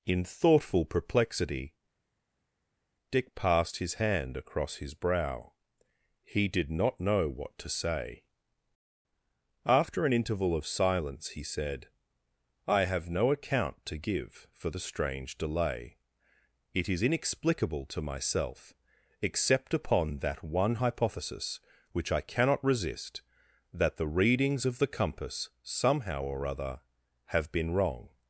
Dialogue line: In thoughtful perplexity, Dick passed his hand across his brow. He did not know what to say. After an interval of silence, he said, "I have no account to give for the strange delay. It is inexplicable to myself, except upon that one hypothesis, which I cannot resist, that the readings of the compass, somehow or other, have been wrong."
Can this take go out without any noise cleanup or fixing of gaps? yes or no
yes